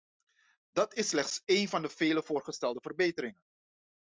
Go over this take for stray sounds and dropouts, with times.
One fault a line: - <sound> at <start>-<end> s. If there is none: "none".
none